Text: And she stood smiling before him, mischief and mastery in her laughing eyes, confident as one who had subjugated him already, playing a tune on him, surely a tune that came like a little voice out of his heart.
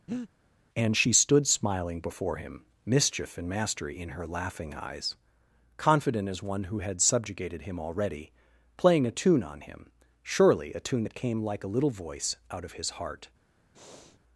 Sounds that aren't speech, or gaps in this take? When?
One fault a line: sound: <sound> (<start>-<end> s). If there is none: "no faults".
sound: breath (0.1-0.3 s)
sound: breath (13.7-14.2 s)